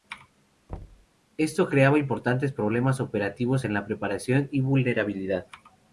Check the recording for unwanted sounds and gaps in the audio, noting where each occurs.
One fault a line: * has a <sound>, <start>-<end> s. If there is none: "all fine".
* has a thud, 0.7-1.1 s